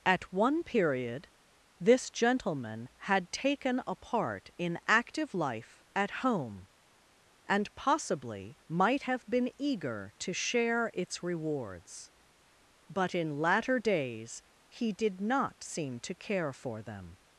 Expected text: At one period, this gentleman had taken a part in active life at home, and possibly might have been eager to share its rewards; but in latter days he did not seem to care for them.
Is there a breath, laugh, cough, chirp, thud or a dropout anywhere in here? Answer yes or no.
no